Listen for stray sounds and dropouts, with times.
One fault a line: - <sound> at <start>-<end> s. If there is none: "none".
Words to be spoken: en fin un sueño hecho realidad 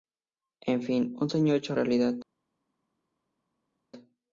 none